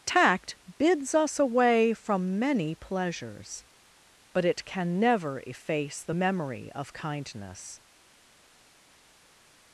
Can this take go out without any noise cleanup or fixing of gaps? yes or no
yes